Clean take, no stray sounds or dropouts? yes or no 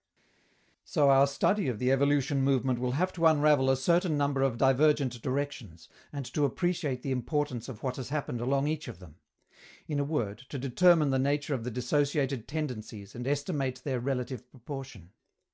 yes